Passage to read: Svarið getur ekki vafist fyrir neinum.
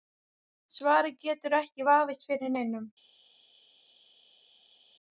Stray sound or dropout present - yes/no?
no